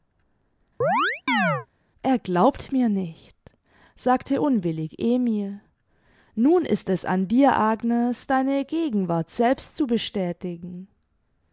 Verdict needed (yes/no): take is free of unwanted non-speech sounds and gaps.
no